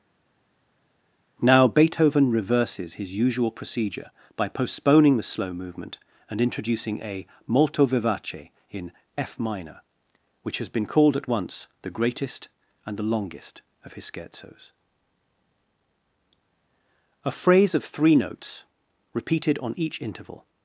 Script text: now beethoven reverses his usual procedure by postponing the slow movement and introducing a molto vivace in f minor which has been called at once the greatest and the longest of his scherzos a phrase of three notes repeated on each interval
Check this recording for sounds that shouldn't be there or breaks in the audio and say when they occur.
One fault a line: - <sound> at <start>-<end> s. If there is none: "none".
none